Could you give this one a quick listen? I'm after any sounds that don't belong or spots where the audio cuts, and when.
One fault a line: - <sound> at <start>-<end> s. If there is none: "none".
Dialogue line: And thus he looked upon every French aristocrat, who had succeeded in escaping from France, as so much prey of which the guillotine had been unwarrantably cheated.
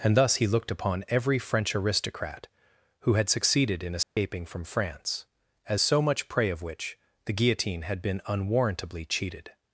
- dropout at 4.0-4.2 s